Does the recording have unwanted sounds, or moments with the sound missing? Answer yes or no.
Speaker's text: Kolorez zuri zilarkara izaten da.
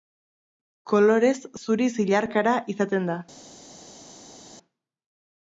no